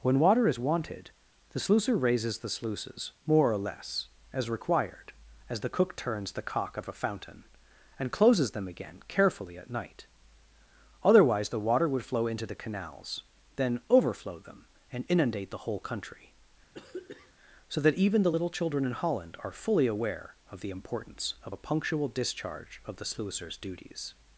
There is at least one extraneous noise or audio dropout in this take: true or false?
true